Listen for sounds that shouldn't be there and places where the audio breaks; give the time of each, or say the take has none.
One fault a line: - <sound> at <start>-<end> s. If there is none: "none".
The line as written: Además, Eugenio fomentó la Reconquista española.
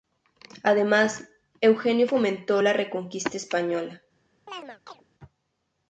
- chirp at 4.5-5.0 s